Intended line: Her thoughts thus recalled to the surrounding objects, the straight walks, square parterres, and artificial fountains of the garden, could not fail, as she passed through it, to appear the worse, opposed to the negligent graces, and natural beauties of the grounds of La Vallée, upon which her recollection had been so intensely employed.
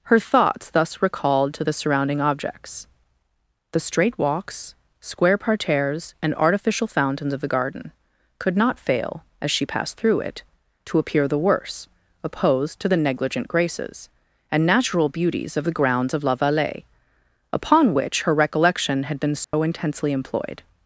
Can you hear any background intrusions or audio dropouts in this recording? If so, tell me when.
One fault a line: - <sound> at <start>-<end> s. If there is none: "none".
- dropout at 19.4-19.5 s